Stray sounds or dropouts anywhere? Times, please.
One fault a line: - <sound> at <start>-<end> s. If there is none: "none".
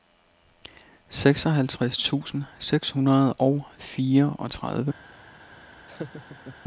- laugh at 5.9-6.6 s